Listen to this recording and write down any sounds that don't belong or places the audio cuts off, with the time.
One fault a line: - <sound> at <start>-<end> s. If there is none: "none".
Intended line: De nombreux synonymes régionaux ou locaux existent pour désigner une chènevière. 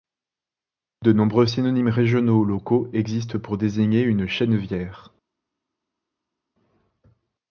none